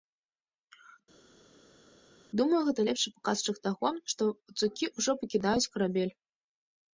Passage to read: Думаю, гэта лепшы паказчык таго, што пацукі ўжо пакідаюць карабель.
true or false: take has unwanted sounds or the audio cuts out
false